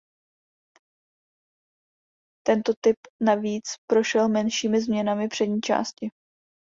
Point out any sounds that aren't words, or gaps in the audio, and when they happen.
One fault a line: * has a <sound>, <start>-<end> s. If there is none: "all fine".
all fine